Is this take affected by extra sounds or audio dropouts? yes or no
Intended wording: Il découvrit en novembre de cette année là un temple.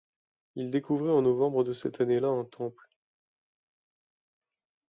no